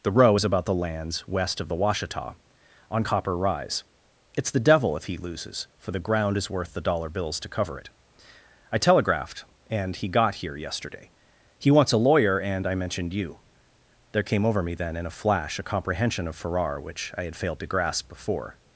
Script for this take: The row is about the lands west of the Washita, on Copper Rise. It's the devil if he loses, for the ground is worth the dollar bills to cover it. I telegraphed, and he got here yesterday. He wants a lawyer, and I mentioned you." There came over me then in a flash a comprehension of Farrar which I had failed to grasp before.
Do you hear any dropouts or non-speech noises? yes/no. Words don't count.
no